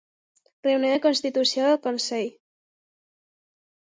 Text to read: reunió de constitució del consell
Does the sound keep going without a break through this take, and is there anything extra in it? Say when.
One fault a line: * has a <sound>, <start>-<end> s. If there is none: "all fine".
all fine